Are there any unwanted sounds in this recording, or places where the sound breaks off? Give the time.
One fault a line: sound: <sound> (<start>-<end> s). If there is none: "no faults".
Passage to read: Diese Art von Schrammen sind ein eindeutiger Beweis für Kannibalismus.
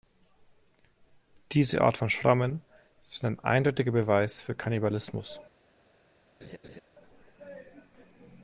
sound: laugh (6.4-6.8 s)